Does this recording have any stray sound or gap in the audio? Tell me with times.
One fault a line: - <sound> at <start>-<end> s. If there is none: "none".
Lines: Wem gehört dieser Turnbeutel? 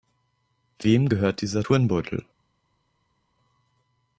none